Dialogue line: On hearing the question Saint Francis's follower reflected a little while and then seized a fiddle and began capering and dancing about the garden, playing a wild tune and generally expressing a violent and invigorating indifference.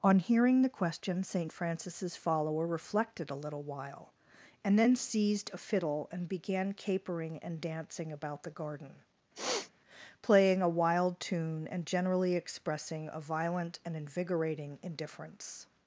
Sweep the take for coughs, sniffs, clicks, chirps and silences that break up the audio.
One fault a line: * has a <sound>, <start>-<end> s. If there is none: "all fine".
* has a sniff, 9.3-9.7 s